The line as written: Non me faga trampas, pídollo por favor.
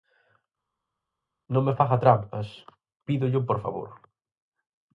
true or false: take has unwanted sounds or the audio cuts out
false